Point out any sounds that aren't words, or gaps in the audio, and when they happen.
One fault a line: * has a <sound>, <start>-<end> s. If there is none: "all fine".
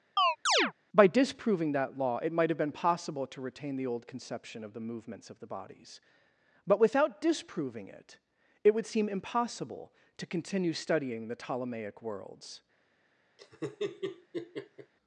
* has a chirp, 0.2-0.7 s
* has a laugh, 13.4-14.9 s